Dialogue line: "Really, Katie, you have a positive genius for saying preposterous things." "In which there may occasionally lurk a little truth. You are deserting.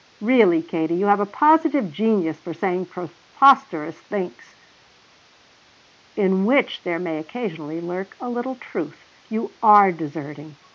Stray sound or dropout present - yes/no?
no